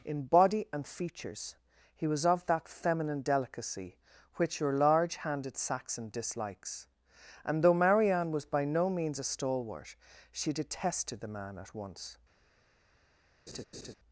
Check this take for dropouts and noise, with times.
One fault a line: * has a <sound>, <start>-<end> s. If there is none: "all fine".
* has a laugh, 13.5-13.9 s